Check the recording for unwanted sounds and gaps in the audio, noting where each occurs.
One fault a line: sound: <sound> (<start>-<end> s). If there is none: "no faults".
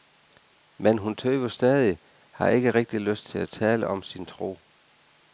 no faults